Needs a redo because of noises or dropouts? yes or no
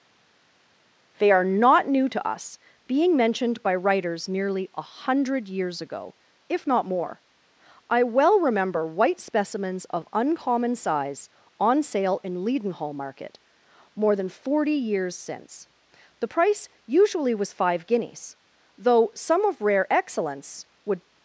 no